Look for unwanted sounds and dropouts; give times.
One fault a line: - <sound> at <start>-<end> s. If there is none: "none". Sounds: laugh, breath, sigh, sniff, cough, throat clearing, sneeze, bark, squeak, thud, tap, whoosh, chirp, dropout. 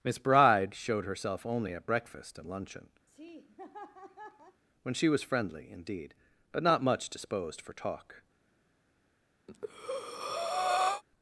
- laugh at 3.1-4.6 s
- breath at 9.5-11.0 s